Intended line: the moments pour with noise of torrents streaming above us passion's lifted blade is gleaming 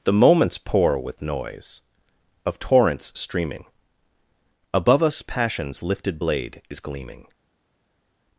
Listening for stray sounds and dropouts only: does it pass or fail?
pass